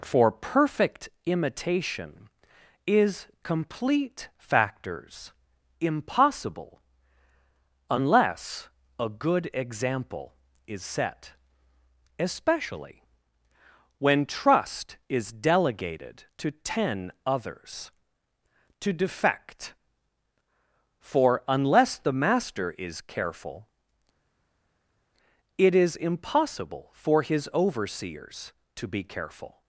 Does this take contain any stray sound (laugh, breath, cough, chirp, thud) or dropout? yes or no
no